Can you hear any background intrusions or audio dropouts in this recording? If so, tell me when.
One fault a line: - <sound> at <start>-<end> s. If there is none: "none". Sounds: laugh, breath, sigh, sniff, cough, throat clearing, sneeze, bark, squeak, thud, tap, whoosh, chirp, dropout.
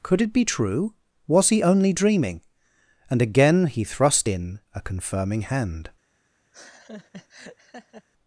- laugh at 6.5-8.1 s